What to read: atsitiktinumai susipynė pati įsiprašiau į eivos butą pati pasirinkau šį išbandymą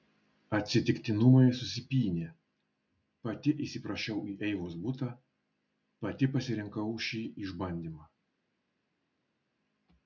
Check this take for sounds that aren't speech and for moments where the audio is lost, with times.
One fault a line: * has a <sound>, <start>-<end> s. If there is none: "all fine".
all fine